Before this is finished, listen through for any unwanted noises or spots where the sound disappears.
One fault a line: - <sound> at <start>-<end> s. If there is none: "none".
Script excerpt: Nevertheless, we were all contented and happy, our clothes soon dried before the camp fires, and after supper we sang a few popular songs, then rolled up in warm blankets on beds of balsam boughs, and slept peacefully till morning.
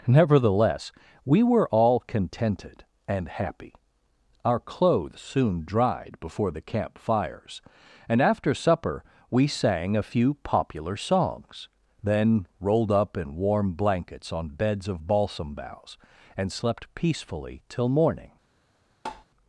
- tap at 19.1-19.3 s